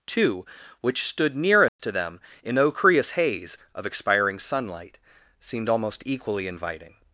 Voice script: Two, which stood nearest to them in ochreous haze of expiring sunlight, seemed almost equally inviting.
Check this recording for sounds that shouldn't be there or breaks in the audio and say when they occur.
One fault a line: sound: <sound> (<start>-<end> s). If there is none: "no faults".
sound: dropout (1.7-1.8 s)